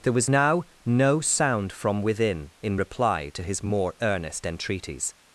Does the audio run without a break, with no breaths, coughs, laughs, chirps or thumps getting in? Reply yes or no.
yes